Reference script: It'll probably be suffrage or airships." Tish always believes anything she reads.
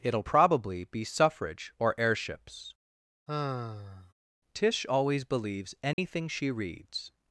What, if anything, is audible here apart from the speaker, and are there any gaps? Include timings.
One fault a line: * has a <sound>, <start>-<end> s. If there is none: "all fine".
* has a sigh, 3.3-4.1 s
* has a dropout, 5.9-6.0 s